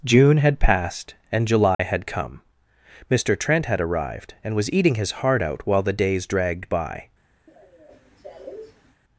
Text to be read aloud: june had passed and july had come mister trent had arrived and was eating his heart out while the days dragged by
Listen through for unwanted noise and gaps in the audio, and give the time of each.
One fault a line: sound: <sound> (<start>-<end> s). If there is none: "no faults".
sound: dropout (1.7-1.8 s)
sound: cough (7.5-9.0 s)